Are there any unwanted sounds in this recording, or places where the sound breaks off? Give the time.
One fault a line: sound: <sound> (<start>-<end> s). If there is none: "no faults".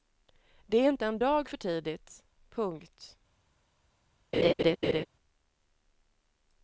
sound: laugh (4.3-5.1 s)